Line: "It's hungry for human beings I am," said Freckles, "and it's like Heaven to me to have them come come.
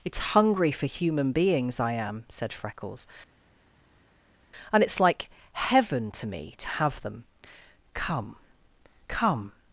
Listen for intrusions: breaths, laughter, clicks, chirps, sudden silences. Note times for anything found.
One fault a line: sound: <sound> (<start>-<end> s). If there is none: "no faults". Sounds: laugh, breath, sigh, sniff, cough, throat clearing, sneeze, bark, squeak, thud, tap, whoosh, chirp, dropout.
no faults